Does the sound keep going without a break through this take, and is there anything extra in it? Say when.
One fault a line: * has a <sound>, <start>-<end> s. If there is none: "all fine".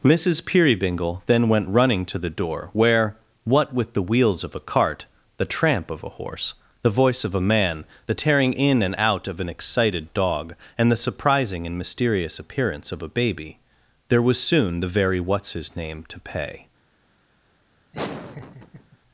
* has a laugh, 17.9-19.0 s